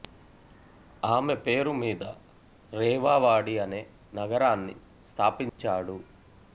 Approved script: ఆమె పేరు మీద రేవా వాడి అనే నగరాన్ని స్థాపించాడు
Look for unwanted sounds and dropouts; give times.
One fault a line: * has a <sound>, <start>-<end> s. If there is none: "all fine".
* has a dropout, 5.5-5.6 s